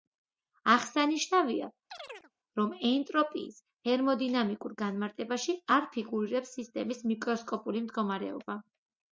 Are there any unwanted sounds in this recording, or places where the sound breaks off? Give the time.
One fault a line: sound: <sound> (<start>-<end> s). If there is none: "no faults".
sound: chirp (1.9-2.3 s)